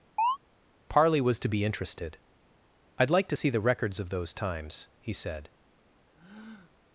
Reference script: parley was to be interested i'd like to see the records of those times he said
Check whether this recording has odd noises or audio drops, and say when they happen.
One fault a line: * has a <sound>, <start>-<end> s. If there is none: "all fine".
* has a chirp, 0.2-0.4 s
* has a breath, 6.2-6.7 s